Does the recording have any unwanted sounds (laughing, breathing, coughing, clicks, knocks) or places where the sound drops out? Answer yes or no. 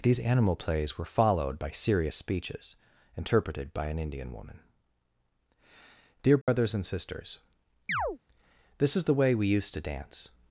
yes